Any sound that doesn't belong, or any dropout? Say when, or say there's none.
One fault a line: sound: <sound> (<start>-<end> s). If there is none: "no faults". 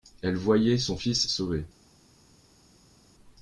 no faults